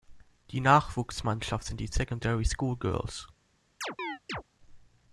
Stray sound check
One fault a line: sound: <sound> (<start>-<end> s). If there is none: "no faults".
sound: chirp (3.8-4.4 s)